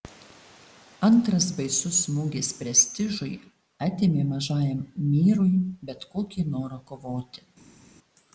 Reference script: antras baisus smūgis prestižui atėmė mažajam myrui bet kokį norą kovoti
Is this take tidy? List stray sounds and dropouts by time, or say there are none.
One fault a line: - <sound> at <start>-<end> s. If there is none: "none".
none